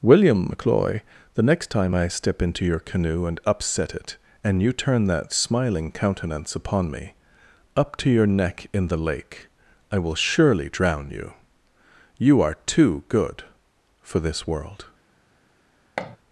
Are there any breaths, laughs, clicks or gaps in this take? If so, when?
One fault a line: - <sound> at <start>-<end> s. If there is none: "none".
- thud at 16.0-16.2 s